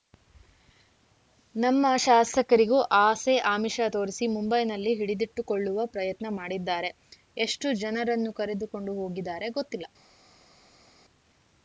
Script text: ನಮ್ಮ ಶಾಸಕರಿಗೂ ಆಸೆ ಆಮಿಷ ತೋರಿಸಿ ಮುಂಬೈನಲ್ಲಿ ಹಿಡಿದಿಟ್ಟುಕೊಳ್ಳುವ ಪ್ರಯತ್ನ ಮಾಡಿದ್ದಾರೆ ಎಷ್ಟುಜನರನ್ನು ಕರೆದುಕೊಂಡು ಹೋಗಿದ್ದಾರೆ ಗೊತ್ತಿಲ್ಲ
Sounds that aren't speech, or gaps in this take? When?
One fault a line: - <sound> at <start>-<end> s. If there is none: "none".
none